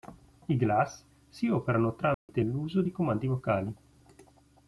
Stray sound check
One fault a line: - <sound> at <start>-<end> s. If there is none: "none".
- dropout at 2.1-2.3 s